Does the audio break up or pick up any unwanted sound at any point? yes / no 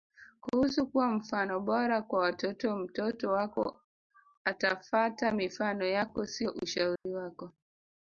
yes